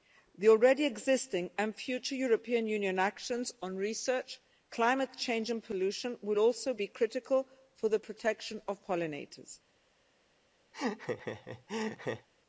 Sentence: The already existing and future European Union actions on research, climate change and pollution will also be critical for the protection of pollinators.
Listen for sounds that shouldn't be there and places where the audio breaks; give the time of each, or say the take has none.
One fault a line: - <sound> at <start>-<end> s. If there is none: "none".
- laugh at 10.7-12.3 s